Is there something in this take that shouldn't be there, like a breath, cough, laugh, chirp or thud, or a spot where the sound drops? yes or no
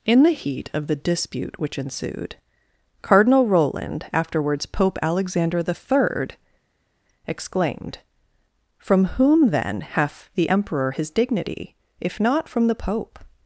no